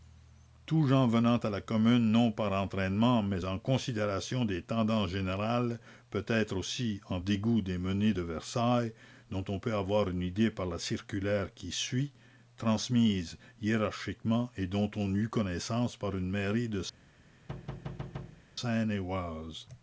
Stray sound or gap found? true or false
true